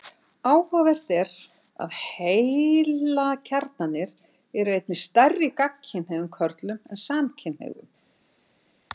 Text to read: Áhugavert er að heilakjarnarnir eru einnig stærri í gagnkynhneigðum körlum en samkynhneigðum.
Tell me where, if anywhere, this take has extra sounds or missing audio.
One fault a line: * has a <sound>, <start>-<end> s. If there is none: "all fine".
all fine